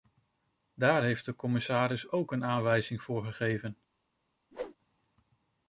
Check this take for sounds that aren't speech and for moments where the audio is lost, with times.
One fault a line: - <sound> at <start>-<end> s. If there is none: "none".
- whoosh at 4.5-4.8 s